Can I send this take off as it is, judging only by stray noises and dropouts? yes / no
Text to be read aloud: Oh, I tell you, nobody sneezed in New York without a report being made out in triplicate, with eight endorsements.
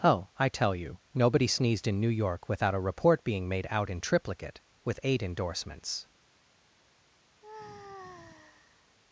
no